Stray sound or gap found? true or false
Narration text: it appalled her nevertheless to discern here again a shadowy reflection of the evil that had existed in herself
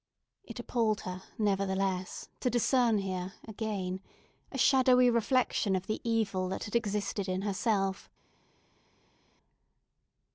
false